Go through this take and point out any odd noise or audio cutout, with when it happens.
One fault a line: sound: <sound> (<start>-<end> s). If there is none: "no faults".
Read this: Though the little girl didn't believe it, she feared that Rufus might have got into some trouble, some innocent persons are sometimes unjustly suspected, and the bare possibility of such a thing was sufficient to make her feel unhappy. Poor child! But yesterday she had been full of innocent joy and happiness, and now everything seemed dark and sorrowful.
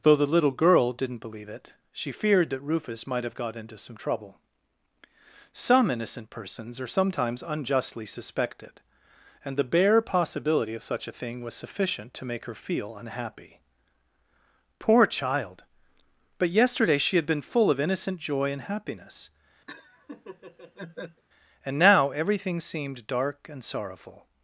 sound: laugh (19.7-21.2 s)